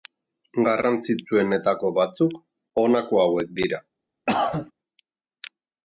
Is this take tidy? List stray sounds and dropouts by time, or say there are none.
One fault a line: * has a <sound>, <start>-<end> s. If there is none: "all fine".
* has a cough, 4.3-4.7 s